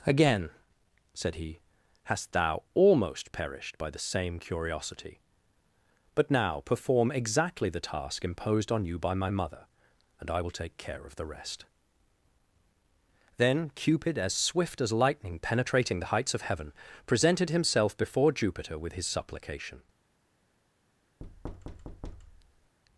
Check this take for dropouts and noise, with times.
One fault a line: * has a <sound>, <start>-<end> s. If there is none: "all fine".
* has a thud, 21.2-22.8 s